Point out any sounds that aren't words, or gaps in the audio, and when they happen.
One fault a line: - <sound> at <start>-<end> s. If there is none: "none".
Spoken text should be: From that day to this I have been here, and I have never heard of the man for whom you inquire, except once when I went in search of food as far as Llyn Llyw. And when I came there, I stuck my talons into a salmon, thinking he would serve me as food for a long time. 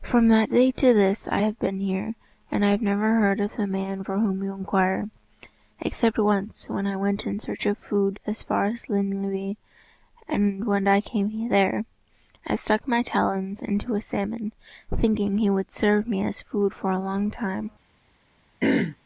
- throat clearing at 18.6-19.0 s